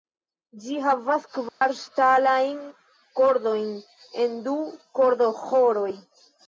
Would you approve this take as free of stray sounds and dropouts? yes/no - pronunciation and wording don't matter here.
no